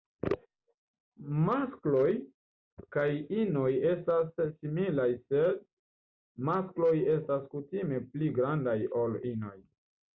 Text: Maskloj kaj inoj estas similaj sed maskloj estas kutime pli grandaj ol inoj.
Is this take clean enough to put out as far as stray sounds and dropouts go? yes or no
yes